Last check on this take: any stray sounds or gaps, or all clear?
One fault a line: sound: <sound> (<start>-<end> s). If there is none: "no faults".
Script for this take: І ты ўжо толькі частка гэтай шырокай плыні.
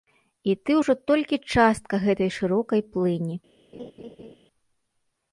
sound: laugh (3.7-4.4 s)